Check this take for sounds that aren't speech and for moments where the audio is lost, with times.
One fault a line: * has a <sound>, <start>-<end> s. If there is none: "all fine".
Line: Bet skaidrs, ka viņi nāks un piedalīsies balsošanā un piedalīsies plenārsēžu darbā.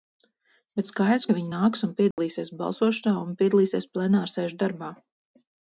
* has a dropout, 2.1-2.2 s